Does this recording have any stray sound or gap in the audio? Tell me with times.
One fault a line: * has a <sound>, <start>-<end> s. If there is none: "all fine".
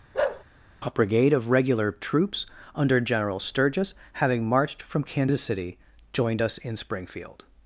* has a bark, 0.1-0.4 s